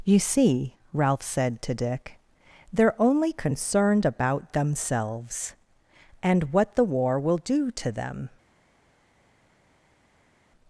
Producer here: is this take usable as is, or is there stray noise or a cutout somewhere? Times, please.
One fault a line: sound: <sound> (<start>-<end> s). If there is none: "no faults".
no faults